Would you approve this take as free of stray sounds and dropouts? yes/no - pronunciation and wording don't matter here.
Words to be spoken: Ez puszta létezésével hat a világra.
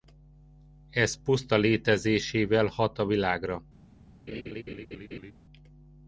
no